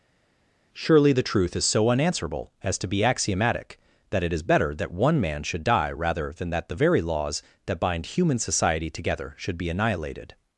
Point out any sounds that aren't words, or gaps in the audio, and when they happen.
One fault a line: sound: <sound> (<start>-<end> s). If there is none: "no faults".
no faults